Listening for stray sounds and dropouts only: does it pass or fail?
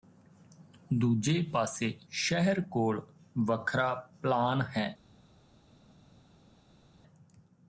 pass